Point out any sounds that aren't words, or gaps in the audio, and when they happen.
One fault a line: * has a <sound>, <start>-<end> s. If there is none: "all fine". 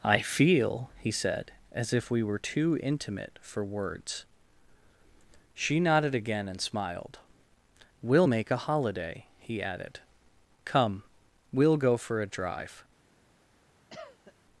* has a cough, 13.9-14.3 s